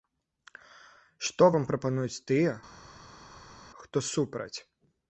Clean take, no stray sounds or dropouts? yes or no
yes